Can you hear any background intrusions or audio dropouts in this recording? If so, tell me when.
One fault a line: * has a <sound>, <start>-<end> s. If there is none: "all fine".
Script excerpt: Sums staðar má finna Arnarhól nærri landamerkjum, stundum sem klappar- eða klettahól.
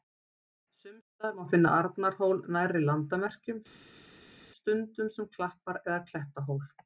all fine